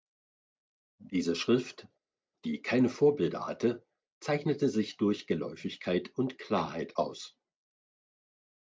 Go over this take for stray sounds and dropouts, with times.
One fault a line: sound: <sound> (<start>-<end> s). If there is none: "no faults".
no faults